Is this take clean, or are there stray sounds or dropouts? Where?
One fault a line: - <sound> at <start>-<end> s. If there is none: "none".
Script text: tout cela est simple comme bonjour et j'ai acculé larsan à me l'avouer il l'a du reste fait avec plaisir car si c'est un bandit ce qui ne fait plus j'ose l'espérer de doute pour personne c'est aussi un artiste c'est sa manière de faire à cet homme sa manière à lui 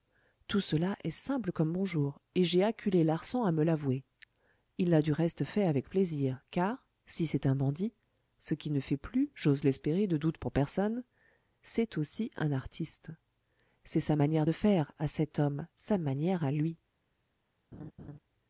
- laugh at 17.7-18.2 s